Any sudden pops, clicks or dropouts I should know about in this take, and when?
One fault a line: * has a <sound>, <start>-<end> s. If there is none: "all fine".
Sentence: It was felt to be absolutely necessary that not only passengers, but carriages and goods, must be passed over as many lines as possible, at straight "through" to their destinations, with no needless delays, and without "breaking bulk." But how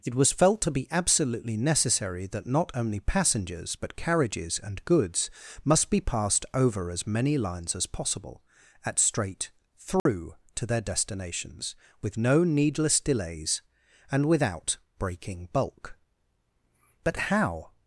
* has a dropout, 10.0-10.1 s